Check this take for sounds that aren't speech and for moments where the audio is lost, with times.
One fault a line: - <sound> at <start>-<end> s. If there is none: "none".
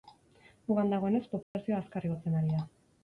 - dropout at 1.4-1.5 s